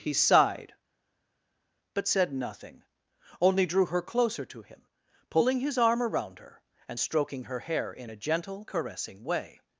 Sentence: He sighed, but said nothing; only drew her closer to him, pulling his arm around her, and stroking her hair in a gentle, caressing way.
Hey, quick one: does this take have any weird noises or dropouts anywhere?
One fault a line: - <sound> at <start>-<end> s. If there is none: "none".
none